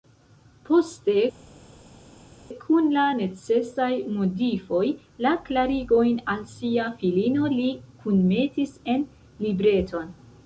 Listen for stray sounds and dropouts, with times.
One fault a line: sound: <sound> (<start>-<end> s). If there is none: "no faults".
no faults